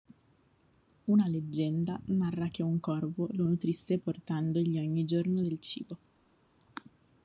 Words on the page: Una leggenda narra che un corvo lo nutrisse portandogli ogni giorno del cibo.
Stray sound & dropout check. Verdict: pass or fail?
pass